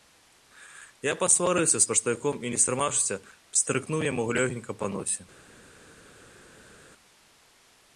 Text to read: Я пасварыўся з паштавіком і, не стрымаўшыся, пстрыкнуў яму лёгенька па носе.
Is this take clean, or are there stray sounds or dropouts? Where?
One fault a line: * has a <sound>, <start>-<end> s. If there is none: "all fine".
all fine